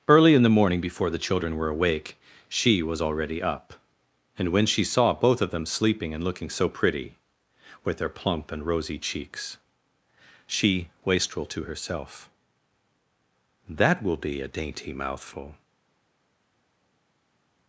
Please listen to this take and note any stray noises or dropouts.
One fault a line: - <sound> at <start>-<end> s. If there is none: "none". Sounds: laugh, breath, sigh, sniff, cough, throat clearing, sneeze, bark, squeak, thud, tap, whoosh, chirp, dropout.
none